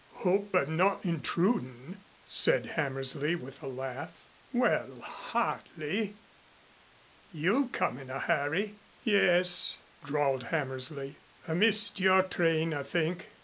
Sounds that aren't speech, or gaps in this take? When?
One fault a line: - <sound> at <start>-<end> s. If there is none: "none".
none